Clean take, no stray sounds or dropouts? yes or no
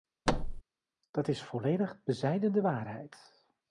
no